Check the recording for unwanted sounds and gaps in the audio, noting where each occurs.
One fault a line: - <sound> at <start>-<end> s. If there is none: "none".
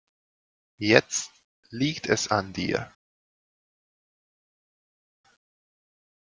none